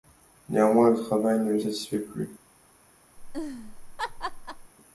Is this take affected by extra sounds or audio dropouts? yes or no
yes